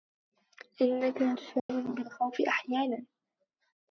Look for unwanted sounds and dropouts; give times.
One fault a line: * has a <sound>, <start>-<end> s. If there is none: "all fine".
* has a dropout, 1.6-1.7 s